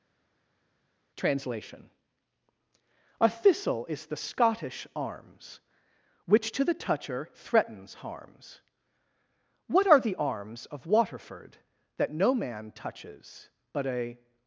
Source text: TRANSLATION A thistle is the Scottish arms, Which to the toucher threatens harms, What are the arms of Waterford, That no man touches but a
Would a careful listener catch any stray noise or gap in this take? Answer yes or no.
no